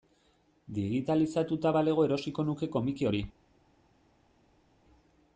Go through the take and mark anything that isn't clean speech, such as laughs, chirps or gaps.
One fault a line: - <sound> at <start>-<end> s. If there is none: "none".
none